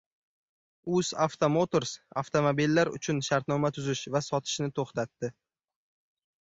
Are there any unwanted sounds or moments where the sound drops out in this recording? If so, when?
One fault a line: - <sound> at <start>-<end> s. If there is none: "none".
none